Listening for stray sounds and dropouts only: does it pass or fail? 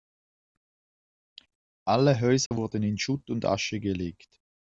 fail